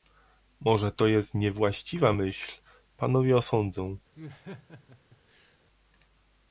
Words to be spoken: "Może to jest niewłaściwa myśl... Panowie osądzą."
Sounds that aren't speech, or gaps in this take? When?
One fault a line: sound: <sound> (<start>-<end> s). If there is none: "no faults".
sound: laugh (4.1-5.6 s)